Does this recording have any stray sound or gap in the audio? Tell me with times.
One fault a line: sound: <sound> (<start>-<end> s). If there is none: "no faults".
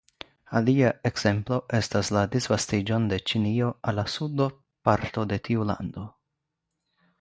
no faults